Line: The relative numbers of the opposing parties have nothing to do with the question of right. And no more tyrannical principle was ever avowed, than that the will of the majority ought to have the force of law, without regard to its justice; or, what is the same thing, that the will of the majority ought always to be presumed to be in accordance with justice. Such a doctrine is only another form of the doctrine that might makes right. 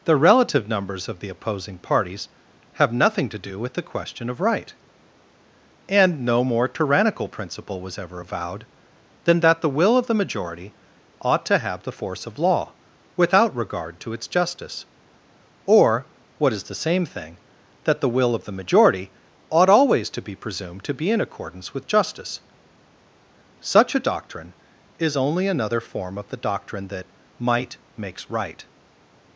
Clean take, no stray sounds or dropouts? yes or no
yes